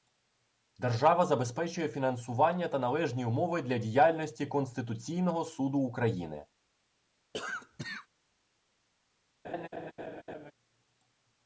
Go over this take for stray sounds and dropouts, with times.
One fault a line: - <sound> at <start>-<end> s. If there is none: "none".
- cough at 7.3-8.1 s
- laugh at 9.4-10.5 s